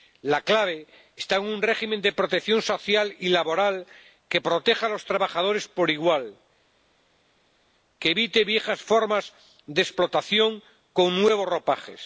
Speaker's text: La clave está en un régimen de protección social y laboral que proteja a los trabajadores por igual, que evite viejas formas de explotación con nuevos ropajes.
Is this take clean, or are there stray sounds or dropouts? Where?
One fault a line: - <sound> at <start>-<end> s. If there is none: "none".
none